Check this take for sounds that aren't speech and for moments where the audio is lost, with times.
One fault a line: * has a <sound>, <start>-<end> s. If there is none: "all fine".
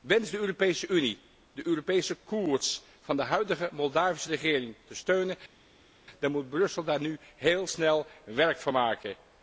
all fine